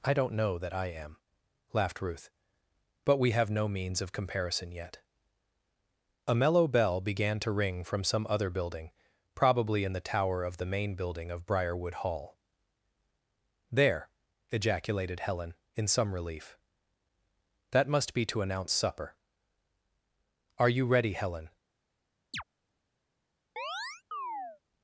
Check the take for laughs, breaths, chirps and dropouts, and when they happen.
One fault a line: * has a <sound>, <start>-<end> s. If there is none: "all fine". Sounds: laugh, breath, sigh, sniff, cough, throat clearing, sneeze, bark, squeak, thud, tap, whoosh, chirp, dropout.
* has a chirp, 22.3-22.4 s
* has a chirp, 23.6-24.6 s